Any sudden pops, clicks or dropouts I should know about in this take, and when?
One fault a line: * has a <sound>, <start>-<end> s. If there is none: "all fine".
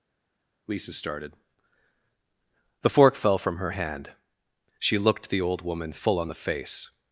all fine